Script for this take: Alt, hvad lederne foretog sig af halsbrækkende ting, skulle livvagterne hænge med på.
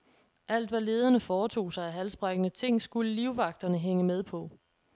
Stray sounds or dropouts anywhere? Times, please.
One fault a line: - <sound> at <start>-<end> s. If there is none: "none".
none